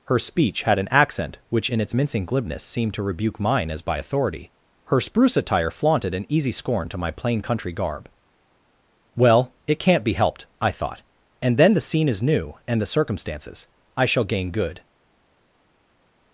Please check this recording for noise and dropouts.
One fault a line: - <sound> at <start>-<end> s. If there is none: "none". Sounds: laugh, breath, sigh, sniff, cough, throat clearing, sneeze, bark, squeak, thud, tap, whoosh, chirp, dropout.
none